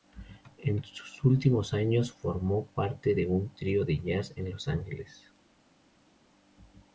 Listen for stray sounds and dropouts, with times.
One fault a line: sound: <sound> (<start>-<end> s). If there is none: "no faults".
no faults